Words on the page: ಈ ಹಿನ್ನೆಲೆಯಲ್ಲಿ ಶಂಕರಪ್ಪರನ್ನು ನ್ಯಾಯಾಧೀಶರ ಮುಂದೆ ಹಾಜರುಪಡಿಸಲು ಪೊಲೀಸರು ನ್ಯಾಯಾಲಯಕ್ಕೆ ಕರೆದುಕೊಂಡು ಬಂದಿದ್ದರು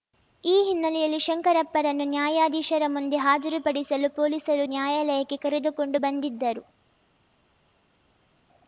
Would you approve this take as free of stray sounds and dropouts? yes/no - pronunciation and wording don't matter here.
yes